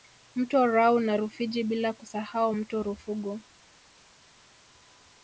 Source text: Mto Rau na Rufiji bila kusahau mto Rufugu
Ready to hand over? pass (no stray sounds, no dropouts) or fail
pass